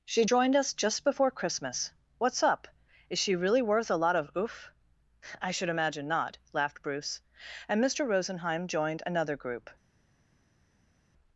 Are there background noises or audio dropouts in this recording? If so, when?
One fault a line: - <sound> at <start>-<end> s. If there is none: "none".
none